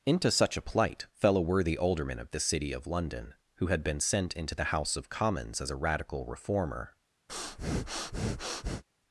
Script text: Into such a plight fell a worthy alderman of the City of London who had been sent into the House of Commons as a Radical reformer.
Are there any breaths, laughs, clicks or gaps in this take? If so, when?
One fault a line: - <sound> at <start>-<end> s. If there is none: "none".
- breath at 7.3-8.8 s